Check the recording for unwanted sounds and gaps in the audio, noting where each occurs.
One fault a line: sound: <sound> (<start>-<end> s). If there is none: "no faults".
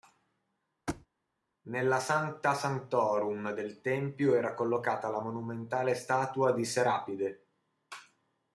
sound: thud (0.9-1.1 s)